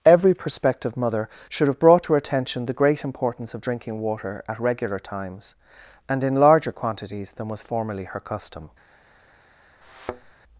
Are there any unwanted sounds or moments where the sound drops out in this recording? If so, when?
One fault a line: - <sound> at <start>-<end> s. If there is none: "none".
- thud at 9.8-10.3 s